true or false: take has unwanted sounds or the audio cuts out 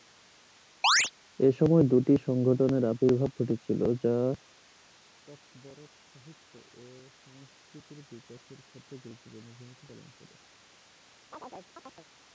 true